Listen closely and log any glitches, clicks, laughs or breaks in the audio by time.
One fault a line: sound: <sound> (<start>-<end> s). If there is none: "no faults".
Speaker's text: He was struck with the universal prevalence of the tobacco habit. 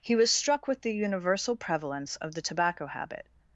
no faults